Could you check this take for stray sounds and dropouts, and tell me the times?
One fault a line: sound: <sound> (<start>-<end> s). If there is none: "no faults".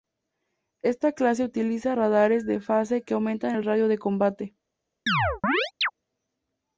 sound: chirp (5.1-5.9 s)